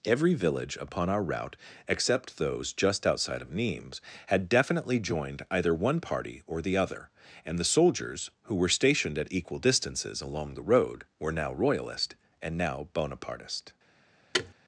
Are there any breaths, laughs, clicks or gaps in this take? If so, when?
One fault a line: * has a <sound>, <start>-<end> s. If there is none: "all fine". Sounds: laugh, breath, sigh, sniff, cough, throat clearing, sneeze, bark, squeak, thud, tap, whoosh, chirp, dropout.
* has a thud, 14.3-14.5 s